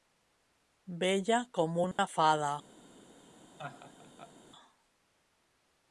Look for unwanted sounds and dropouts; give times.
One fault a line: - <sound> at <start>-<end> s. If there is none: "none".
- dropout at 1.9-2.0 s
- laugh at 3.6-4.3 s